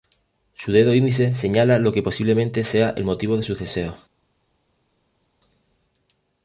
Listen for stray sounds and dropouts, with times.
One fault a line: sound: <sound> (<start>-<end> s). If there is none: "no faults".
no faults